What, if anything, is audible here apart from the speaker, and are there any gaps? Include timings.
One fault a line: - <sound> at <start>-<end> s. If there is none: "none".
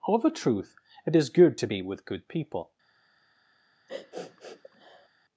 - sniff at 3.9-5.1 s